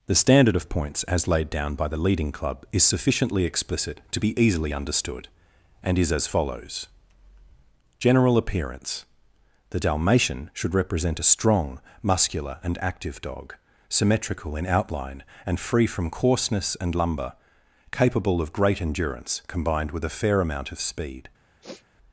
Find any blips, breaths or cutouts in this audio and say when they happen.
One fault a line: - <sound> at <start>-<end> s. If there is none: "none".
- sniff at 21.6-21.9 s